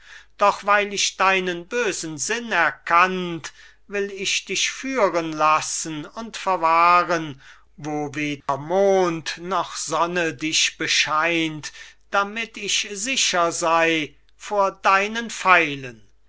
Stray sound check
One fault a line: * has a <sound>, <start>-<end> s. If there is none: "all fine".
* has a dropout, 8.4-8.5 s